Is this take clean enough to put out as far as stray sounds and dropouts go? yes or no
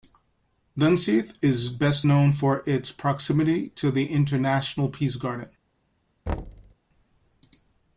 no